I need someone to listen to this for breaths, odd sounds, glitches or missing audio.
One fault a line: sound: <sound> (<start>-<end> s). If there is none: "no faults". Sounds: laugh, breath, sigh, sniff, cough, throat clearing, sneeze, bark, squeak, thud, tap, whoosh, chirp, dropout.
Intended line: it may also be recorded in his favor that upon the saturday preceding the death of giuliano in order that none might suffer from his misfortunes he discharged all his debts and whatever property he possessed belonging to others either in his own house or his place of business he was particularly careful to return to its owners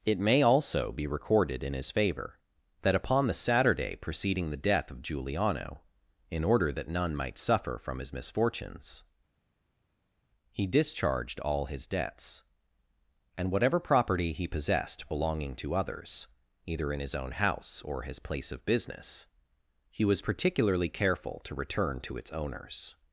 no faults